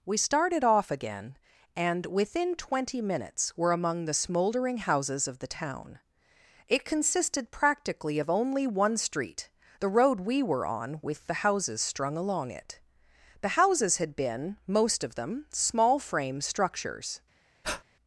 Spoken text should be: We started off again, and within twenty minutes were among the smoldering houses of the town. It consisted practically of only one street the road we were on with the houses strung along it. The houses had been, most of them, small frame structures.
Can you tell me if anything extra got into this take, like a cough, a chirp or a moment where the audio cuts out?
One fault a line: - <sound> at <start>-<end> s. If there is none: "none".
- breath at 17.6-17.8 s